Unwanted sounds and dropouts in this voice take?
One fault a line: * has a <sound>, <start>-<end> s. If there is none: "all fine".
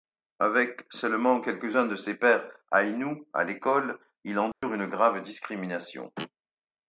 * has a dropout, 4.5-4.6 s